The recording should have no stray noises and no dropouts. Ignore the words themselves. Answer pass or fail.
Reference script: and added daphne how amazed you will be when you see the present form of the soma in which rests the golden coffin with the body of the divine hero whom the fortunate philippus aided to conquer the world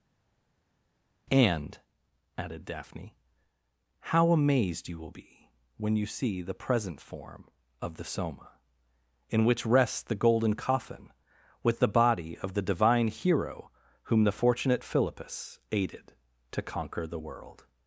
pass